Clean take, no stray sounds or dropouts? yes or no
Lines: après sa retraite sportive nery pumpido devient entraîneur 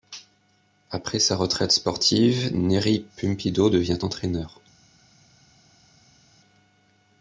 yes